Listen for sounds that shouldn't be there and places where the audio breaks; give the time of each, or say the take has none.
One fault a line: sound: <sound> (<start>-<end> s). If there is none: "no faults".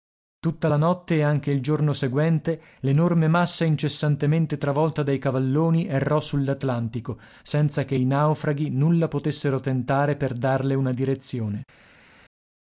no faults